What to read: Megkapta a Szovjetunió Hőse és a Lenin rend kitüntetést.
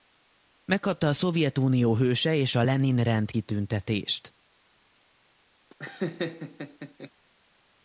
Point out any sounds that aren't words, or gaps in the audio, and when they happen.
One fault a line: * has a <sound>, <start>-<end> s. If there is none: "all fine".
* has a laugh, 5.7-7.1 s